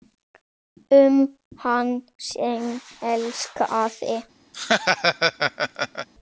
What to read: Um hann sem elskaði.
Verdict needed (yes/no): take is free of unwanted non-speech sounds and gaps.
no